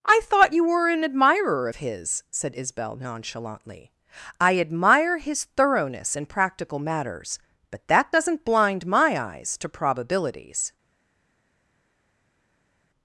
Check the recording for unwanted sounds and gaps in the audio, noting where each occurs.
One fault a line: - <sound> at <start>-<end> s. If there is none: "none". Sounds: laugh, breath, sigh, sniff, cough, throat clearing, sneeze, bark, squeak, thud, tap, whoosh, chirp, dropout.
none